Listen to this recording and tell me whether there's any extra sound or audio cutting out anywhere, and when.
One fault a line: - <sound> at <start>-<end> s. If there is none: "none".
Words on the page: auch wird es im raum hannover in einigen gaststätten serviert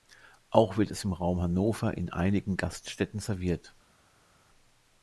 none